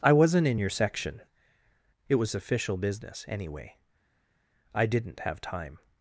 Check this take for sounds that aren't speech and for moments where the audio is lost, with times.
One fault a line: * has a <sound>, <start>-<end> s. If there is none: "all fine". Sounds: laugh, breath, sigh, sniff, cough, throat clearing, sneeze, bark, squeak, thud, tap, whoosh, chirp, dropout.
all fine